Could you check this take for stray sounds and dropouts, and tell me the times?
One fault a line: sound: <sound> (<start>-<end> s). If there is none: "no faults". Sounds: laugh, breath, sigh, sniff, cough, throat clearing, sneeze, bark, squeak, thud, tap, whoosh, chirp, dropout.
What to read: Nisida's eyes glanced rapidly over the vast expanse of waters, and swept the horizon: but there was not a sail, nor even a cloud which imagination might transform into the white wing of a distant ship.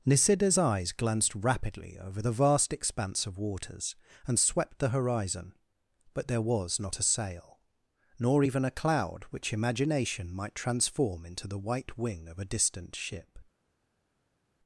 no faults